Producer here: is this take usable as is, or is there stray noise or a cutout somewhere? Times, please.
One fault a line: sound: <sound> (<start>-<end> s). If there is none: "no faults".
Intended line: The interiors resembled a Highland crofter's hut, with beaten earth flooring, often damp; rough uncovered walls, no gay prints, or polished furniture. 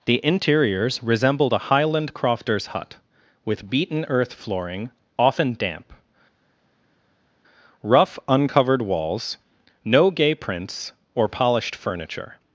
no faults